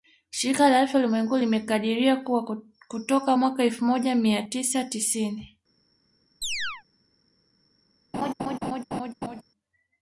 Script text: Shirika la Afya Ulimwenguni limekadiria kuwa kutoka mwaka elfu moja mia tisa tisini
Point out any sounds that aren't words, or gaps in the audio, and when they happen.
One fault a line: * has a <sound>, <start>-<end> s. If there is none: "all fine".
* has a chirp, 6.4-6.8 s
* has a laugh, 8.1-9.4 s